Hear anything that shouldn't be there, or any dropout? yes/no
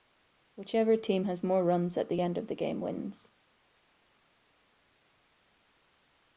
no